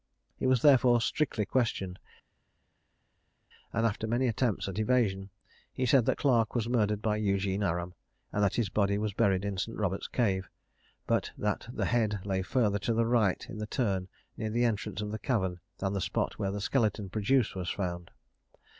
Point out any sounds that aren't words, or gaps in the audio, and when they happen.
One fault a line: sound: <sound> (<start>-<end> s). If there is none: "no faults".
no faults